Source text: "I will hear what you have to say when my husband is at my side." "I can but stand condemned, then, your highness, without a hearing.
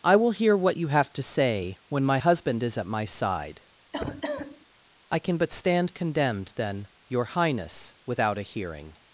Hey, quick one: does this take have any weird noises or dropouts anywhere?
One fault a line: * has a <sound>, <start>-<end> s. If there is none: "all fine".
* has a cough, 3.9-4.7 s